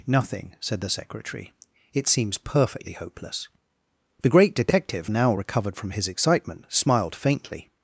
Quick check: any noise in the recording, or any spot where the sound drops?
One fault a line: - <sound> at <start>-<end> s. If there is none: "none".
none